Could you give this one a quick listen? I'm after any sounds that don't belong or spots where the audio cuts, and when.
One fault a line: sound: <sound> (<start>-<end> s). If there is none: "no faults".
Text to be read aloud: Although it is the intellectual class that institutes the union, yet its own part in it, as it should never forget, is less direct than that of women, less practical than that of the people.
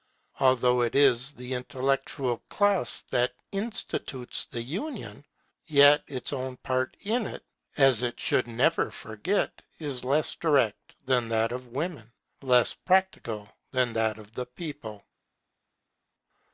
no faults